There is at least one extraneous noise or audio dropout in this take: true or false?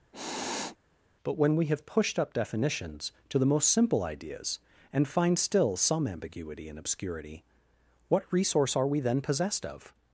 true